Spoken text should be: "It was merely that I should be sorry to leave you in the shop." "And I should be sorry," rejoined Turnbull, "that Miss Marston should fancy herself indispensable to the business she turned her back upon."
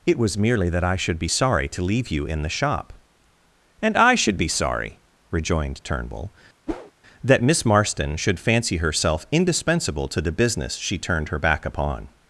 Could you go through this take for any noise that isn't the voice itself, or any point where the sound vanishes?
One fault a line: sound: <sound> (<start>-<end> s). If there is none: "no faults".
sound: whoosh (6.7-6.9 s)